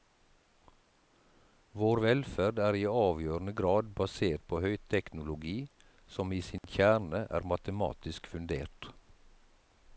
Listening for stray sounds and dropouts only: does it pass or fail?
fail